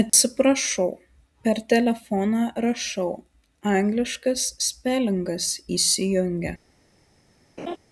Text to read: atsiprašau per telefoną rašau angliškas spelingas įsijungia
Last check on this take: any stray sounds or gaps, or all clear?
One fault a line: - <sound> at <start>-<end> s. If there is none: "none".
- dropout at 0.1-0.1 s
- laugh at 7.6-7.8 s